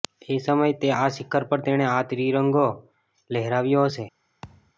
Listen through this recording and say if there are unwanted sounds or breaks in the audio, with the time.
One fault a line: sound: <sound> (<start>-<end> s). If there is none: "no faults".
sound: thud (4.4-4.7 s)